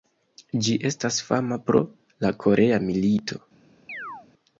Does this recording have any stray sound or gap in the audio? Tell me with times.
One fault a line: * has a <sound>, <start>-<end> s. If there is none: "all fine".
* has a chirp, 3.9-4.3 s